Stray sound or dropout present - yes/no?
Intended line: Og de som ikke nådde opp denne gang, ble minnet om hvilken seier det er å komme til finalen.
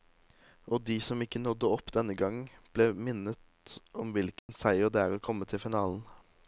yes